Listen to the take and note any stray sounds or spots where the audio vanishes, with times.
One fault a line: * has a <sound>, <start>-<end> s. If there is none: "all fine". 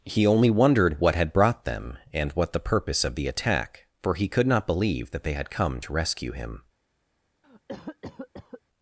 * has a cough, 7.4-8.6 s